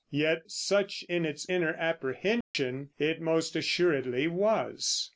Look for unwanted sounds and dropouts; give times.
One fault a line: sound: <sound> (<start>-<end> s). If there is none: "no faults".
sound: dropout (2.4-2.5 s)